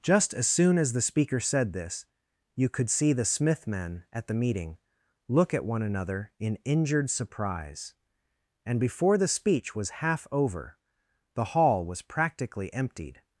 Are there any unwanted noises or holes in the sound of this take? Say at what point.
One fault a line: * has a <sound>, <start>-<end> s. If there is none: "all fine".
all fine